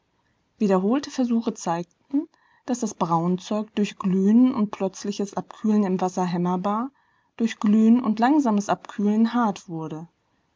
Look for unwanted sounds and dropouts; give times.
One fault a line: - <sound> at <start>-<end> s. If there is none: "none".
none